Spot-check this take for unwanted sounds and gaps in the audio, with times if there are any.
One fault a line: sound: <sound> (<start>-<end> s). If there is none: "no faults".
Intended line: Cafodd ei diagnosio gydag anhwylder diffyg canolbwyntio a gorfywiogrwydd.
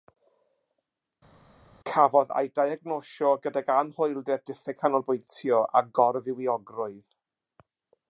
no faults